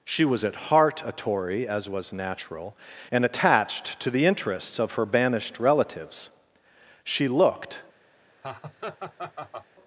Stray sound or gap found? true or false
true